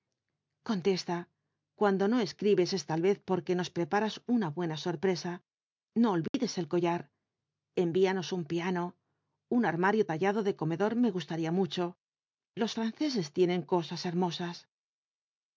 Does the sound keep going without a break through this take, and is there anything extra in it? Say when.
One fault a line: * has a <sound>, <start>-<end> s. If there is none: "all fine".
* has a dropout, 6.3-6.3 s